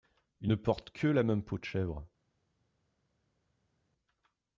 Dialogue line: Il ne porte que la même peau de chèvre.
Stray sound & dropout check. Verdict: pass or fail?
pass